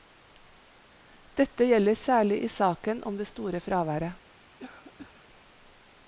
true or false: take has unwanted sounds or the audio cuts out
true